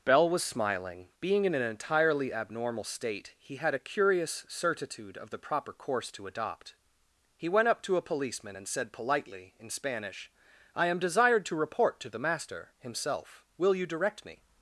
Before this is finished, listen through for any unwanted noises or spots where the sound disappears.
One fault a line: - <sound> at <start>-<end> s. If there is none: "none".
none